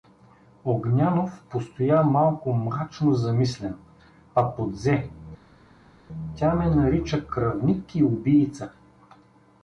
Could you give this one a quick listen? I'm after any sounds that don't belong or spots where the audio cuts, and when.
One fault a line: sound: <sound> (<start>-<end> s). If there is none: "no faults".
no faults